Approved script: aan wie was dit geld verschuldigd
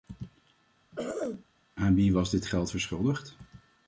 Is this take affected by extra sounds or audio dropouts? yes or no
yes